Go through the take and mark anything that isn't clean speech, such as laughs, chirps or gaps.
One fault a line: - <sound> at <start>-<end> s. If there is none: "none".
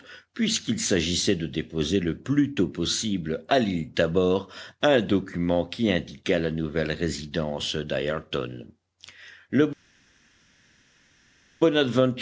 none